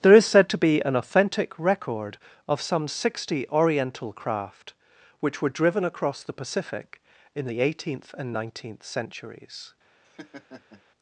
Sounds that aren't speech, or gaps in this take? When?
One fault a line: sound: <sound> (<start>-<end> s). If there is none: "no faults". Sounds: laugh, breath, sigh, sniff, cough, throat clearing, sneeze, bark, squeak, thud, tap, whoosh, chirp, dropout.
sound: laugh (10.0-10.8 s)